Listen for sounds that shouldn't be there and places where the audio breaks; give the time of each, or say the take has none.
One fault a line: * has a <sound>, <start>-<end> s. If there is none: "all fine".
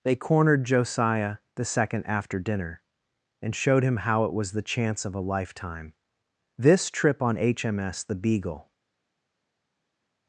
all fine